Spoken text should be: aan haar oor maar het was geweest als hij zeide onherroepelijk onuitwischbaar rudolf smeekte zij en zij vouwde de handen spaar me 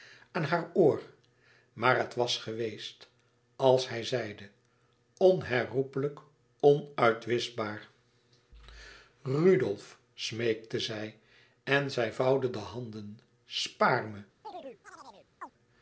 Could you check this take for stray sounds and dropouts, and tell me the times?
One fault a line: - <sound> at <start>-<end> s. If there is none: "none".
- chirp at 14.4-15.5 s